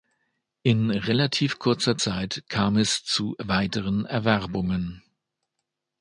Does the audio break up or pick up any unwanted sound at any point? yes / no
no